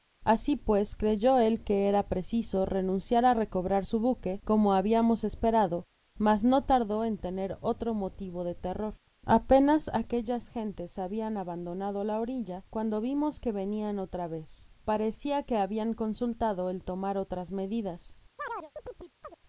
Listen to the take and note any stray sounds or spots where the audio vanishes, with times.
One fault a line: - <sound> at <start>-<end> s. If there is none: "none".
- chirp at 18.4-19.4 s